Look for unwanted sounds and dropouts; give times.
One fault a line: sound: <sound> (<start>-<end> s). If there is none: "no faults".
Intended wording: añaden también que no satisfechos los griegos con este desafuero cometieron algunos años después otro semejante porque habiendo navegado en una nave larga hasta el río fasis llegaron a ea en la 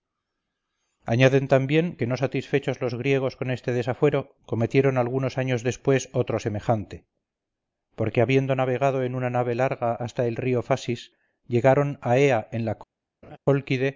sound: laugh (13.2-13.4 s)